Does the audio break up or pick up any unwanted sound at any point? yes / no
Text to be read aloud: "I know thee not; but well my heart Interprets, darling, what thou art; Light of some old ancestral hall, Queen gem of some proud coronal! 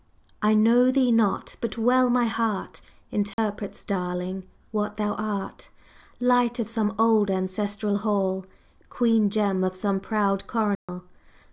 yes